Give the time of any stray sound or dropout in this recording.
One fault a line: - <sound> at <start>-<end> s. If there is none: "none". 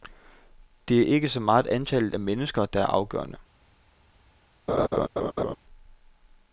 - laugh at 4.7-5.6 s